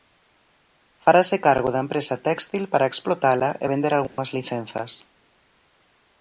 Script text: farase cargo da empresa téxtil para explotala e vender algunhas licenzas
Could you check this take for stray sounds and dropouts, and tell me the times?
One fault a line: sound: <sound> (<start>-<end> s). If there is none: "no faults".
sound: dropout (4.1-4.2 s)